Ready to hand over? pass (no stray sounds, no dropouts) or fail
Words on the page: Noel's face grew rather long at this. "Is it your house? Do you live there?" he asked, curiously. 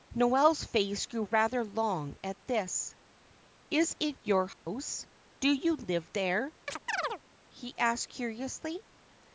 fail